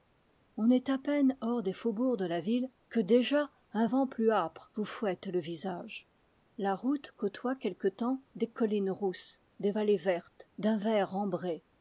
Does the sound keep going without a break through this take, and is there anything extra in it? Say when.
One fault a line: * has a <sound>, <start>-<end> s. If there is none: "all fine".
all fine